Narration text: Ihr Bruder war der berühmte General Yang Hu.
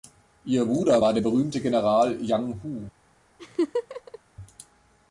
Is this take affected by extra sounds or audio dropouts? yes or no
yes